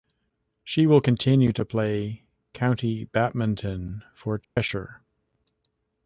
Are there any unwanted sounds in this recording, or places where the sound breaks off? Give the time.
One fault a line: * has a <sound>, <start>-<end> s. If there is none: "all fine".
* has a dropout, 4.4-4.6 s